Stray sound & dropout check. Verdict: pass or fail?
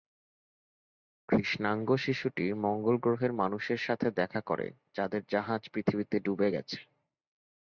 pass